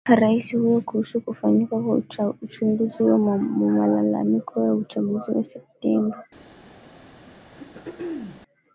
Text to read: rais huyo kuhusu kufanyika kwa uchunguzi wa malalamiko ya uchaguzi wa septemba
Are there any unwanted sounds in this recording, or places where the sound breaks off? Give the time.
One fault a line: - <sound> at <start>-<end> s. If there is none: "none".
- throat clearing at 7.5-8.4 s